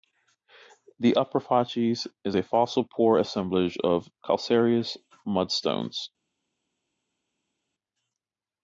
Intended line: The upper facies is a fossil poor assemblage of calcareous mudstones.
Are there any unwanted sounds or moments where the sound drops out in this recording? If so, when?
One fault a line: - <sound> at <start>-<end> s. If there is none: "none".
none